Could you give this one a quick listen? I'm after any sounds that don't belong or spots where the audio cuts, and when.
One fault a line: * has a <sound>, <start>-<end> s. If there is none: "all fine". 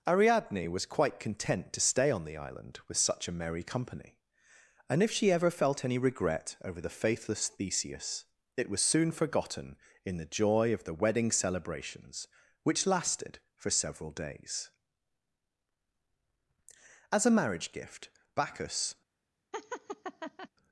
* has a laugh, 19.5-20.5 s